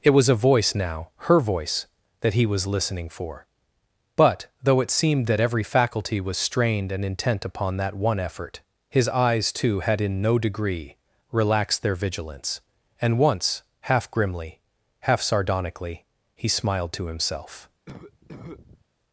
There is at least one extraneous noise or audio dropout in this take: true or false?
true